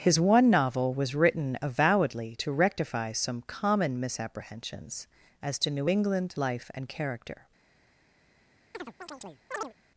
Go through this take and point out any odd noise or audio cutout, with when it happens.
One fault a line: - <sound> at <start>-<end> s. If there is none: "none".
- chirp at 8.7-9.7 s